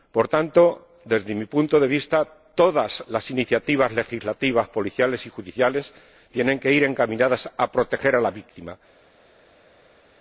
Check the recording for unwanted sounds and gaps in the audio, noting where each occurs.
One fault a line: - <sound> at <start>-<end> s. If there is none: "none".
none